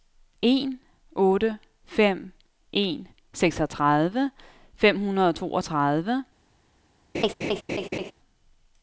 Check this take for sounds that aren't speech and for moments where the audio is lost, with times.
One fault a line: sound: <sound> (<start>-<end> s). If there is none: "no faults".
sound: laugh (7.1-8.1 s)